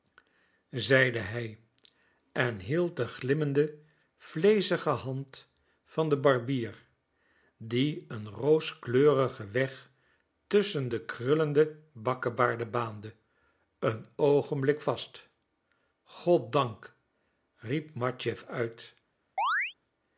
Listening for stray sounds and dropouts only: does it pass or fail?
fail